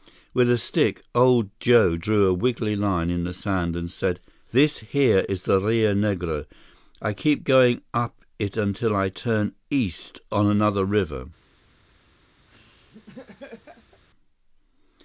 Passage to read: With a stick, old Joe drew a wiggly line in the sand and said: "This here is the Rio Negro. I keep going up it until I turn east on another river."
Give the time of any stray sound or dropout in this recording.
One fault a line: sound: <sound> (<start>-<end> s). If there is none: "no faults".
sound: laugh (12.5-14.0 s)